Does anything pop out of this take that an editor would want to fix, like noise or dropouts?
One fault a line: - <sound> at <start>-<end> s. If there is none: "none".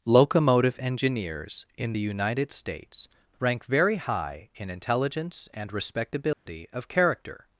- dropout at 6.3-6.5 s